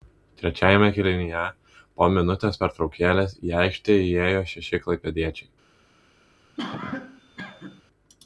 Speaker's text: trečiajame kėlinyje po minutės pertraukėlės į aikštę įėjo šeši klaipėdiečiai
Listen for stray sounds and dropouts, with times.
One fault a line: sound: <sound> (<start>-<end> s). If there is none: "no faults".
sound: cough (6.6-7.8 s)